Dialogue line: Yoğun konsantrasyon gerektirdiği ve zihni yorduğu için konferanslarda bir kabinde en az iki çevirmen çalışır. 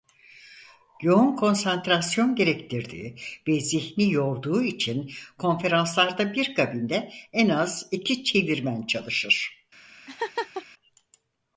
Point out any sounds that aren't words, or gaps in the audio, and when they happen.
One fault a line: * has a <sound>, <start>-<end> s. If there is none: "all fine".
* has a laugh, 10.1-10.7 s